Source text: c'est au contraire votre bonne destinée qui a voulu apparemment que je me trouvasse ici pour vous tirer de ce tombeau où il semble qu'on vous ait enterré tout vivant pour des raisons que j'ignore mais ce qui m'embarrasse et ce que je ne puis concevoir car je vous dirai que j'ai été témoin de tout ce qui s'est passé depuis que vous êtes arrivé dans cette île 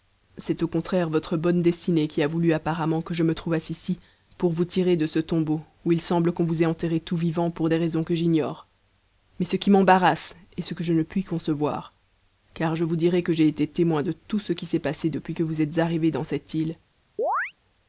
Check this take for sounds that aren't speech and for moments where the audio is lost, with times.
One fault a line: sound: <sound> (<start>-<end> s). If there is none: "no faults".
sound: chirp (17.2-17.5 s)